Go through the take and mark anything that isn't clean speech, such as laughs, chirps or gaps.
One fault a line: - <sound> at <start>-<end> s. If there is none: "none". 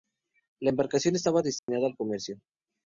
- dropout at 1.6-1.7 s